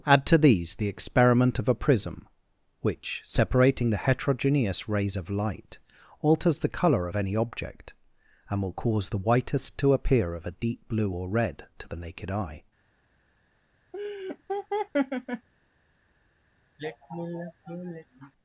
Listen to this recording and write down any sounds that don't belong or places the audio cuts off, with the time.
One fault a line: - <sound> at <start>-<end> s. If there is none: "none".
- laugh at 13.9-15.5 s
- sigh at 16.8-18.3 s